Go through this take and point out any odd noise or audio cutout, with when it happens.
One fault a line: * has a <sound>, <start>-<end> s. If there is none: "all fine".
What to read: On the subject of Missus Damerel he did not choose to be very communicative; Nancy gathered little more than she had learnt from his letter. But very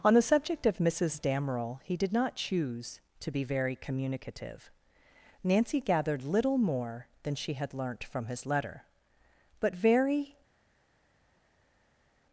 all fine